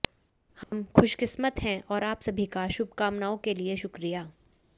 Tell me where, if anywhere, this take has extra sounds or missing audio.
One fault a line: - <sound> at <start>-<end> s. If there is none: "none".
- dropout at 0.6-0.7 s